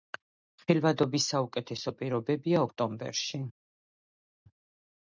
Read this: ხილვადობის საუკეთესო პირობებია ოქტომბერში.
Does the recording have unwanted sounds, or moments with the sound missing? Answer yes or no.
no